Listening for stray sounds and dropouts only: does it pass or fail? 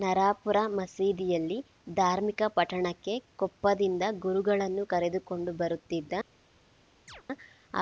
fail